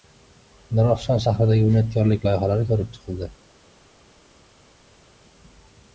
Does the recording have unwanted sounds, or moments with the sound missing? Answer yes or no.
no